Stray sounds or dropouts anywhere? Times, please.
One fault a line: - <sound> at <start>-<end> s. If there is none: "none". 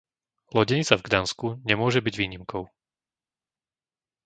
none